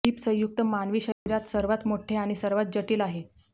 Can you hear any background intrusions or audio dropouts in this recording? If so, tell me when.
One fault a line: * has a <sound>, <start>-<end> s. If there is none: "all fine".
* has a dropout, 1.1-1.3 s